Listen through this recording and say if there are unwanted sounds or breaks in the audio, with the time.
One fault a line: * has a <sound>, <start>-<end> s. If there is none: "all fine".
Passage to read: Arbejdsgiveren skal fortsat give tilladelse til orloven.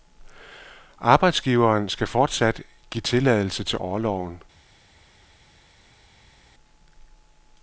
all fine